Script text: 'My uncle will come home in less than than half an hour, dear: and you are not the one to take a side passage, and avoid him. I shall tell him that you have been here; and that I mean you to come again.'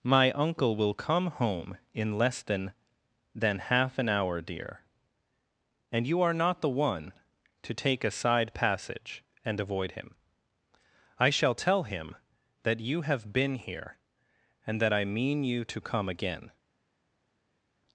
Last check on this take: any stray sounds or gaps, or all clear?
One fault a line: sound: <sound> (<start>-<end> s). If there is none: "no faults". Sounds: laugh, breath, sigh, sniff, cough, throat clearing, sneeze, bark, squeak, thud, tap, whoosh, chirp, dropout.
no faults